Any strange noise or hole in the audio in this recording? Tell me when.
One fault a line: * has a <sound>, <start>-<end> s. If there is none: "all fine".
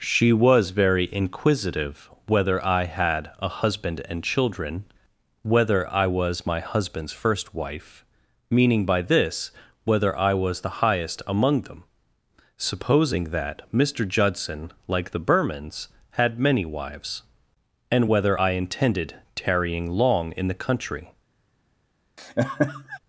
* has a laugh, 22.2-23.0 s